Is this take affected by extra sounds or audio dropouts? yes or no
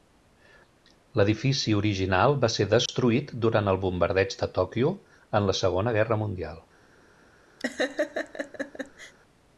yes